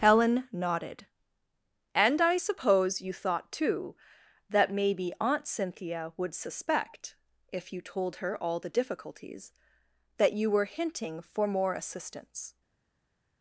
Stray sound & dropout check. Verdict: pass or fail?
pass